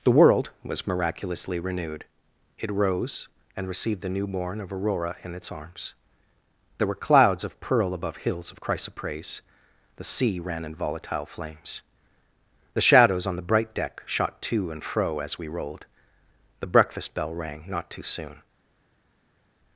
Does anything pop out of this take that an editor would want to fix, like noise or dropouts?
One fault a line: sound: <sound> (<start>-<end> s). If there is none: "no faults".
no faults